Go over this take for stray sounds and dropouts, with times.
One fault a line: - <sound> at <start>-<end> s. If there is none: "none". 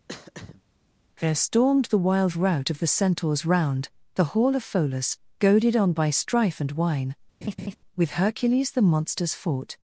- throat clearing at 0.1-0.6 s
- laugh at 7.4-7.8 s